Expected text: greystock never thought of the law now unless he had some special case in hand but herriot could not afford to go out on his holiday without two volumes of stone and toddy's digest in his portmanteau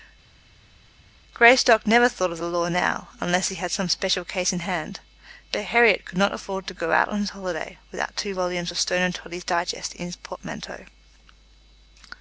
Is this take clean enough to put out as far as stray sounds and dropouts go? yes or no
yes